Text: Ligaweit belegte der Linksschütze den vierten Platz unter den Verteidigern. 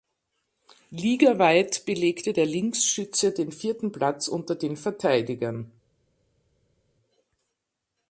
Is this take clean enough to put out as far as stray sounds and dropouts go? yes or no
yes